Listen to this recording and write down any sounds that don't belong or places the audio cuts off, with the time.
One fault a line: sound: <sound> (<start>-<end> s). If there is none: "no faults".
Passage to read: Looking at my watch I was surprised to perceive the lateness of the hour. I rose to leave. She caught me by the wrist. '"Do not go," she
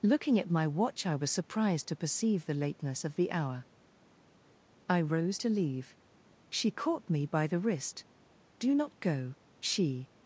no faults